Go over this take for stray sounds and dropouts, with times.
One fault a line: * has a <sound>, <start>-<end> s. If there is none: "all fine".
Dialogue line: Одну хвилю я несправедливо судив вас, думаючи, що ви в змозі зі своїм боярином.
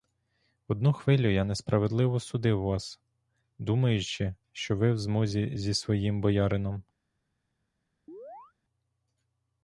* has a chirp, 8.1-8.5 s